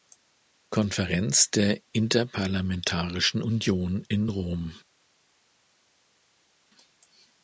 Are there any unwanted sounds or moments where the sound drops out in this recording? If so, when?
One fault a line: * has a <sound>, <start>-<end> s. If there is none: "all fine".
all fine